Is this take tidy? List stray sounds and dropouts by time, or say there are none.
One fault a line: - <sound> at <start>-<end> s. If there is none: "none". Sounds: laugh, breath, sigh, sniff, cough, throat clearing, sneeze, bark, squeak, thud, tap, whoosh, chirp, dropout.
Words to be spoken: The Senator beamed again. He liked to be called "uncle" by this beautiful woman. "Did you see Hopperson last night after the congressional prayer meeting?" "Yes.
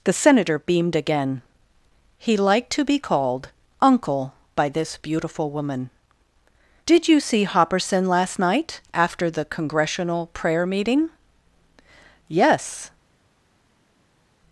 none